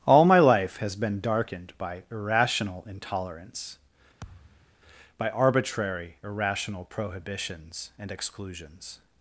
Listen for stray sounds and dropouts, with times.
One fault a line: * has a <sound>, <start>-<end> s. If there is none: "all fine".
* has a thud, 4.2-4.8 s